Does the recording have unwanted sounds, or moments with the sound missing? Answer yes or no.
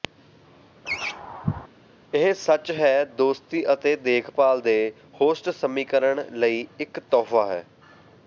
yes